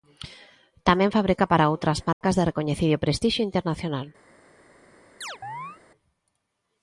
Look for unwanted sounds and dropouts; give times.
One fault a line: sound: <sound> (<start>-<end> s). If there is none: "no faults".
sound: dropout (2.1-2.2 s)
sound: chirp (5.2-5.8 s)